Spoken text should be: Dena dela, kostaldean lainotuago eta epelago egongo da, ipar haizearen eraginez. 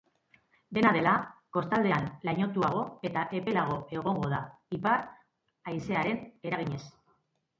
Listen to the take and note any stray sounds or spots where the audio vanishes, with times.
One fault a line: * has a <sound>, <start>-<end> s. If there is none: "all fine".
all fine